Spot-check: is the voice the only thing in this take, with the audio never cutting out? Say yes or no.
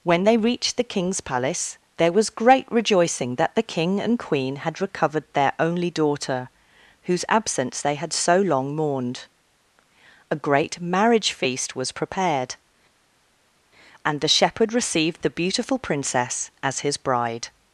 yes